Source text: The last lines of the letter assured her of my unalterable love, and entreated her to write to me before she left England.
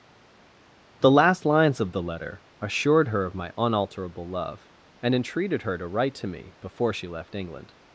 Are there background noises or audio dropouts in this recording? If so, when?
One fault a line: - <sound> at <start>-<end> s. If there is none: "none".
none